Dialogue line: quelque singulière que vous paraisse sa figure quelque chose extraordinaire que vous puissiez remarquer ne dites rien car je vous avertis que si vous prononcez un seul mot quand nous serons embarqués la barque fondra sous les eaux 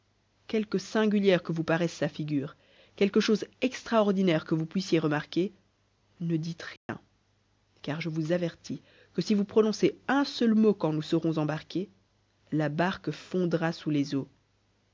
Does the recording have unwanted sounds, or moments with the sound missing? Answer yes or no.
yes